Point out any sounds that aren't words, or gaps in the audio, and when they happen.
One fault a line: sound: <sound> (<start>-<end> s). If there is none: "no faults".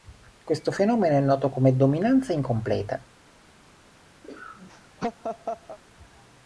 sound: laugh (4.2-5.8 s)